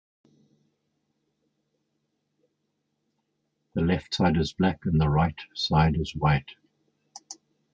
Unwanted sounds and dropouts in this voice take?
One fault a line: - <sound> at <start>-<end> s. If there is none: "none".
none